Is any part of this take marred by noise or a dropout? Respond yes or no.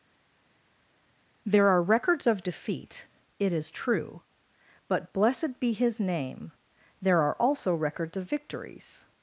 no